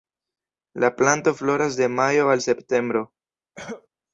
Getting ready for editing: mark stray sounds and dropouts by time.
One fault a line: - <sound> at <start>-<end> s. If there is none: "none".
- cough at 3.6-3.9 s